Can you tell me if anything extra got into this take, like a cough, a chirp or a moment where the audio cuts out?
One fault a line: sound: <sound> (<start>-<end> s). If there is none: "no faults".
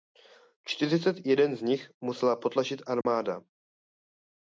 sound: dropout (3.0-3.1 s)